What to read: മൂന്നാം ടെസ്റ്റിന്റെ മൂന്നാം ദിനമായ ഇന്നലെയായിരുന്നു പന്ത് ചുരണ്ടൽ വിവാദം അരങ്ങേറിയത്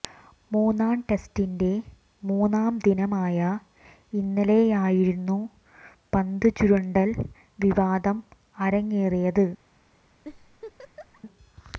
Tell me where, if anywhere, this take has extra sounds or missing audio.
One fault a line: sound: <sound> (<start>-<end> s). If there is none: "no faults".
sound: laugh (10.2-11.2 s)